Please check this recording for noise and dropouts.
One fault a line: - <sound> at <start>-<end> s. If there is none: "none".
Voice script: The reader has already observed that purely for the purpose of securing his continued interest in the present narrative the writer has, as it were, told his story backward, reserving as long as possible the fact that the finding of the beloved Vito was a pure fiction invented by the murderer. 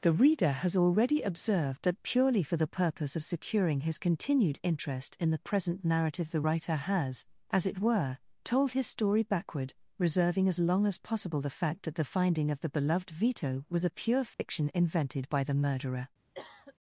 - dropout at 14.3-14.4 s
- cough at 16.3-16.7 s